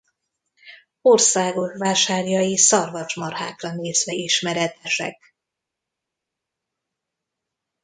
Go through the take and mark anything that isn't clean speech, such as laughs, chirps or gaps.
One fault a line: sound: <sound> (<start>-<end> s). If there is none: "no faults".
no faults